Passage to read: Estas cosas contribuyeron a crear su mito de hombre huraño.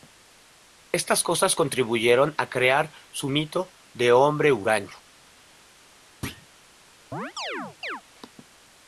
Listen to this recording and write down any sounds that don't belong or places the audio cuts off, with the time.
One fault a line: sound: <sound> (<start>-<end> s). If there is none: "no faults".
sound: thud (6.2-6.5 s)
sound: chirp (7.1-8.0 s)